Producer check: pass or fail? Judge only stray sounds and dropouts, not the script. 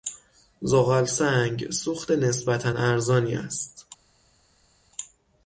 pass